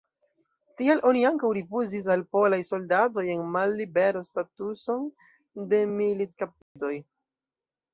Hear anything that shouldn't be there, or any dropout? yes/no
yes